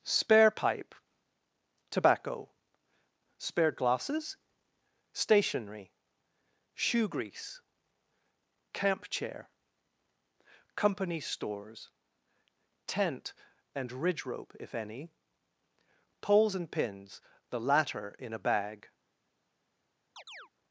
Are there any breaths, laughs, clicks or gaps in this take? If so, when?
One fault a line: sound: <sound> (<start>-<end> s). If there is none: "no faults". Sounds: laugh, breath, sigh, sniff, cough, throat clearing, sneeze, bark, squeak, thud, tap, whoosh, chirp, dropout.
sound: chirp (20.2-20.5 s)